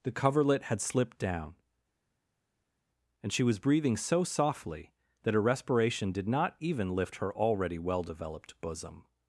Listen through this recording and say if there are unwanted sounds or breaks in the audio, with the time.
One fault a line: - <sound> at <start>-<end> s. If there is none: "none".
none